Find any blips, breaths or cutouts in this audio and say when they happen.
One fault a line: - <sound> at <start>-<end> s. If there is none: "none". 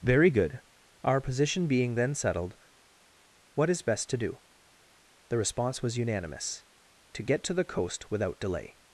none